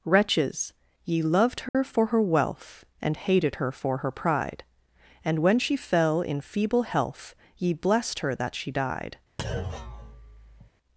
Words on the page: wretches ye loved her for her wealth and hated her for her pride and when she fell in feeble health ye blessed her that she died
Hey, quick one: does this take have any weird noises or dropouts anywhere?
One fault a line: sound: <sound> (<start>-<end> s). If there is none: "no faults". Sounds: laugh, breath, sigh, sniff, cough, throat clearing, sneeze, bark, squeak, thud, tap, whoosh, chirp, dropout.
sound: dropout (1.7-1.7 s)
sound: thud (9.4-10.7 s)